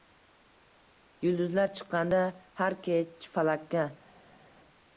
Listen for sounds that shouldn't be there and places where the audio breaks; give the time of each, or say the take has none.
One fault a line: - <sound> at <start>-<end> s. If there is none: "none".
none